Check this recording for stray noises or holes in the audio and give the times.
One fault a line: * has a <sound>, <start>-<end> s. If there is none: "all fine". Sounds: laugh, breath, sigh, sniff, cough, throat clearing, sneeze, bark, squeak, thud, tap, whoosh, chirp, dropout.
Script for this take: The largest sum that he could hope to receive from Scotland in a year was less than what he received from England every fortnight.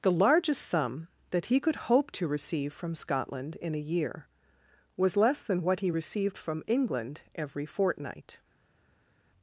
all fine